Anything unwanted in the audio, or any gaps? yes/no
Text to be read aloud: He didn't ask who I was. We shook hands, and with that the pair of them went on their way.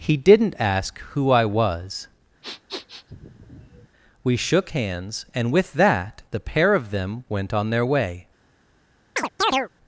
yes